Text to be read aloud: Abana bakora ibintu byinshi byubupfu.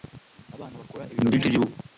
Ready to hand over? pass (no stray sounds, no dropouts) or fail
pass